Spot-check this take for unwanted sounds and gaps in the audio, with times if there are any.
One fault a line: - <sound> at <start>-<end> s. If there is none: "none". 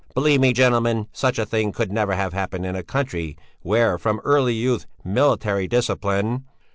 none